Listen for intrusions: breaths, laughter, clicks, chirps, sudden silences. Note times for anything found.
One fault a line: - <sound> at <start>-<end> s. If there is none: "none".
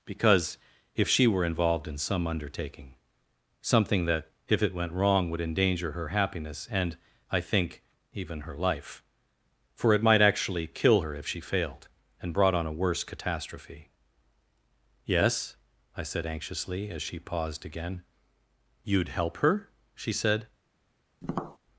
- tap at 21.2-21.6 s